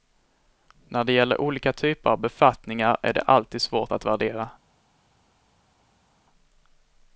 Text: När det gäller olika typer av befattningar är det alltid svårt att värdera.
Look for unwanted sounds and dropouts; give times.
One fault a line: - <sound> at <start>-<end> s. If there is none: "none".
none